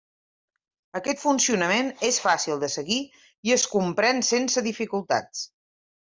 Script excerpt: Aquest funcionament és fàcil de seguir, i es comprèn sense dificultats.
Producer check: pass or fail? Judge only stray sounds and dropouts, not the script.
pass